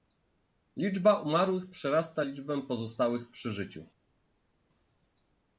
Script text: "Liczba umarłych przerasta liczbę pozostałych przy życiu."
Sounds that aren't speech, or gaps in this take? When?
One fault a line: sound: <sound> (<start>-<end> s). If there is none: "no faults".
no faults